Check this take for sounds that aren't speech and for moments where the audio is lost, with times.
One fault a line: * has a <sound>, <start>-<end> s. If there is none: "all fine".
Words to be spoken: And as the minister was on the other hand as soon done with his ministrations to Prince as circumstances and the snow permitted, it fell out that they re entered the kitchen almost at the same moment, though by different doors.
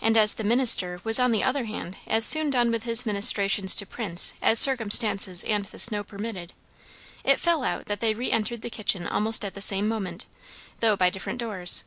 all fine